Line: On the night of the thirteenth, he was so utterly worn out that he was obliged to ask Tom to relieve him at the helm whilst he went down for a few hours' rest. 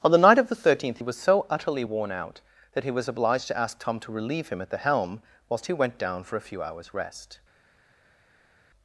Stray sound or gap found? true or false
false